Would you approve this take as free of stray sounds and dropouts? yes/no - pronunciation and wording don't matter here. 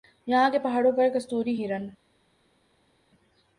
yes